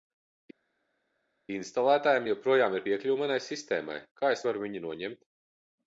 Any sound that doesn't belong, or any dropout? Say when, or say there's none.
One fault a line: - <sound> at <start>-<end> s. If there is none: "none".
none